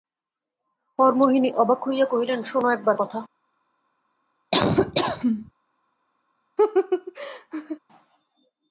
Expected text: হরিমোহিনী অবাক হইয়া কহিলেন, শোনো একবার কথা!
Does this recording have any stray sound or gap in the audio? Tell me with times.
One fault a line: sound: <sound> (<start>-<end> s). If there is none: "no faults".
sound: laugh (4.5-5.5 s)
sound: laugh (6.6-7.8 s)